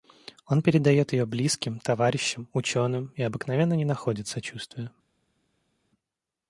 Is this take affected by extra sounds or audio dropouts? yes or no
no